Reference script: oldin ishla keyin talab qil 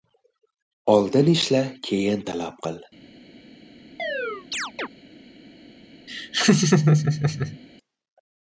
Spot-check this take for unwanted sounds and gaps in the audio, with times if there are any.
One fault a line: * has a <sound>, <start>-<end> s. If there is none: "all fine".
* has a chirp, 4.0-4.9 s
* has a laugh, 6.1-7.6 s